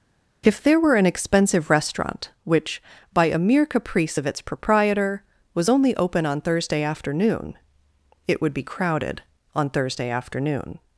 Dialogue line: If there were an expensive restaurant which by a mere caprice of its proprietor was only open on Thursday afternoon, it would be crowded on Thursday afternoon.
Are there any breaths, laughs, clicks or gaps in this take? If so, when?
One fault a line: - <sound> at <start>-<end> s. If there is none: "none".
none